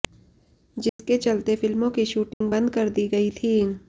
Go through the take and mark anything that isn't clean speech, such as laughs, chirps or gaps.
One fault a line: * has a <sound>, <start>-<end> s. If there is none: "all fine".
* has a dropout, 0.9-1.0 s
* has a dropout, 2.3-2.4 s